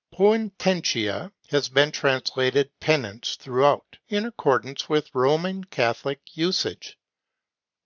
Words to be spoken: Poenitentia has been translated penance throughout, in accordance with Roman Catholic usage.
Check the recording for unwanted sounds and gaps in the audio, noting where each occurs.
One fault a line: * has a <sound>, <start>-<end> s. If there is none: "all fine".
all fine